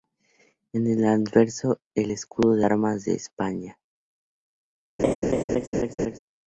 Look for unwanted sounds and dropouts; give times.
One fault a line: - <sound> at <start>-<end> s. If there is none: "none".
- laugh at 5.0-6.2 s